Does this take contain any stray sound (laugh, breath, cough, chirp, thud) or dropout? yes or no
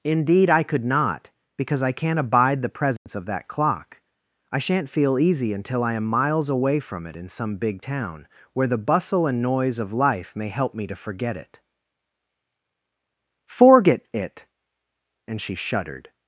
yes